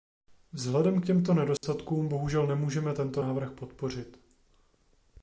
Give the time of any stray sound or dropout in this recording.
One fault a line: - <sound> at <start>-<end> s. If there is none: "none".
- dropout at 1.6-1.6 s